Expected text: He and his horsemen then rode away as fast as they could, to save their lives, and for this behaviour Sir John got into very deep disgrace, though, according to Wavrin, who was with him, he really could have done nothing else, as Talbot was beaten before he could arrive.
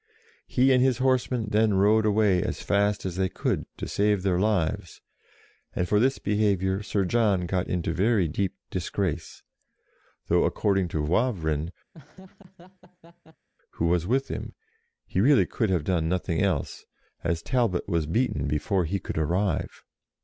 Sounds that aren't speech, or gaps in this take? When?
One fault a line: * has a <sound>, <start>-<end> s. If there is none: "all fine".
* has a laugh, 11.9-13.5 s